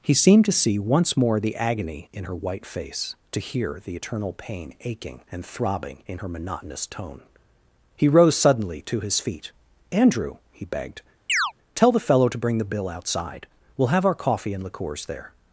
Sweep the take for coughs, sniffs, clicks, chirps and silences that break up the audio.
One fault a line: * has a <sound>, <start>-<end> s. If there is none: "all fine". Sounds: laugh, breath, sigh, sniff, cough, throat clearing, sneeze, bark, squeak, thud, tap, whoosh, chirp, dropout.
* has a chirp, 11.3-11.5 s